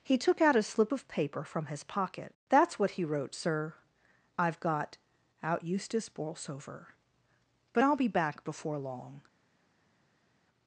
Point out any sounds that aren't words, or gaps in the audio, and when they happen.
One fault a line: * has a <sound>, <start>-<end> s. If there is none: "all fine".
all fine